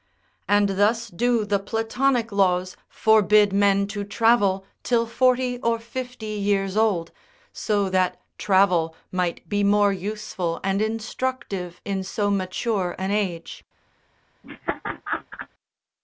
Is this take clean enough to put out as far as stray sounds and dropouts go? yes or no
no